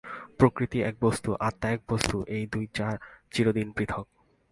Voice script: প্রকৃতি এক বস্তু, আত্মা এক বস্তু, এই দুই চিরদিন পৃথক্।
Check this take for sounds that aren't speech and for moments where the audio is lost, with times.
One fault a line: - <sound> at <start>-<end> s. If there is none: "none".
none